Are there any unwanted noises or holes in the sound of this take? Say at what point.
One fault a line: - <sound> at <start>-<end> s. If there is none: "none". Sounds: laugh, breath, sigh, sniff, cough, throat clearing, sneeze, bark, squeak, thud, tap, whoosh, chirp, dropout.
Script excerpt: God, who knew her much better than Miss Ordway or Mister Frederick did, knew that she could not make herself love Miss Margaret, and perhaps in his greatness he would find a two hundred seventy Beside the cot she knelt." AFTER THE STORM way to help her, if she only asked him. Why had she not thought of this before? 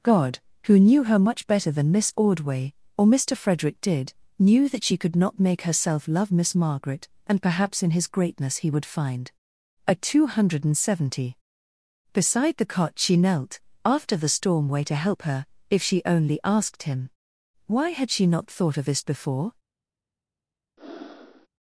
- breath at 20.8-21.5 s